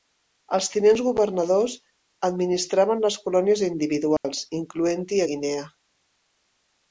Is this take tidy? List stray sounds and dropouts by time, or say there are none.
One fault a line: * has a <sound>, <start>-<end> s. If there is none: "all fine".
* has a dropout, 4.2-4.2 s